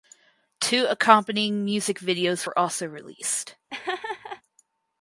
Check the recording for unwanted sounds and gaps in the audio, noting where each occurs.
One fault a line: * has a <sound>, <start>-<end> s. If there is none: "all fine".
* has a laugh, 3.7-4.4 s